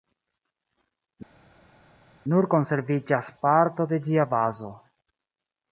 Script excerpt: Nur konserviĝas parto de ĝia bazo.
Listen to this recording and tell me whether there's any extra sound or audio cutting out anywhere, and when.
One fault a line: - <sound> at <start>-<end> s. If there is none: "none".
none